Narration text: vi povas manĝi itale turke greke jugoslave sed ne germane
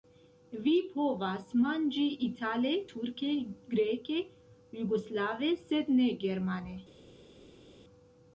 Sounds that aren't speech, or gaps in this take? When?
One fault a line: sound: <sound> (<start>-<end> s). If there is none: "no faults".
no faults